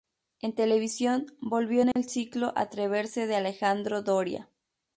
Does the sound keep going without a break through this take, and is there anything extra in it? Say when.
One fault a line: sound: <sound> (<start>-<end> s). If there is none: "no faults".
sound: dropout (1.9-2.0 s)